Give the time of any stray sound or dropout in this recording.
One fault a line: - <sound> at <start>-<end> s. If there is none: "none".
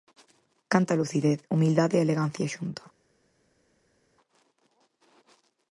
none